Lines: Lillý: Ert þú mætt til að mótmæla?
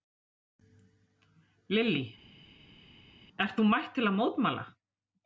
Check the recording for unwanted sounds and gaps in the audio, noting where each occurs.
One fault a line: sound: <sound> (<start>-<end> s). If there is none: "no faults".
no faults